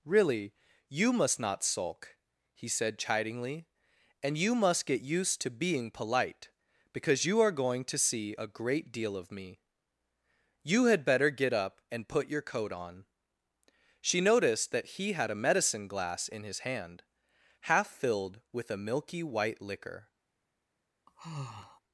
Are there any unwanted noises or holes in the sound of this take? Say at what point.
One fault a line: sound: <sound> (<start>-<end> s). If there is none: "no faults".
sound: sigh (21.1-21.8 s)